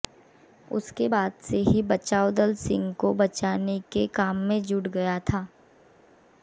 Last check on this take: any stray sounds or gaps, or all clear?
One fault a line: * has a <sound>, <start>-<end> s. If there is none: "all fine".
all fine